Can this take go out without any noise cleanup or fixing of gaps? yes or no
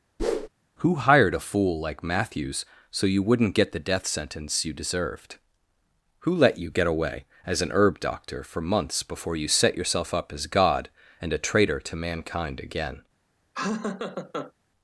no